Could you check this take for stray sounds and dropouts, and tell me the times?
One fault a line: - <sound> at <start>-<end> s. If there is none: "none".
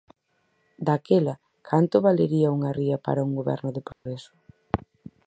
- dropout at 3.9-4.1 s